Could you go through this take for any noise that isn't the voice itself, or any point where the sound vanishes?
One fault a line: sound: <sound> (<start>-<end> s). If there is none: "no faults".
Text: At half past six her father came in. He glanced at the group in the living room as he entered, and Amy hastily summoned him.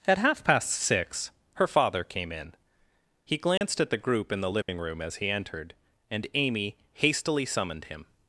sound: dropout (3.6-3.6 s)
sound: dropout (4.6-4.7 s)